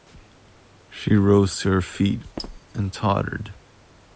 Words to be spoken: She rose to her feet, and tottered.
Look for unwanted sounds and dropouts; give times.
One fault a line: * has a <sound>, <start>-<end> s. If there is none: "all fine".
* has a squeak, 2.4-2.6 s